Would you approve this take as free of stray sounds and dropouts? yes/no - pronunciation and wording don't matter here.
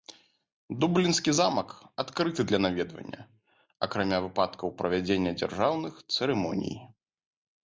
yes